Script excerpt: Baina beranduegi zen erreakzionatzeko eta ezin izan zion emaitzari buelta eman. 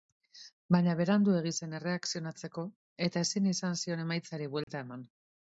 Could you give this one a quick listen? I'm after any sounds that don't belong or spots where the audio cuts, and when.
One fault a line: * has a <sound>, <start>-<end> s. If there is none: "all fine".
* has a dropout, 4.6-4.7 s